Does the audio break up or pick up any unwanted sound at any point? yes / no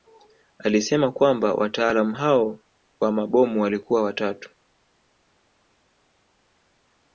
no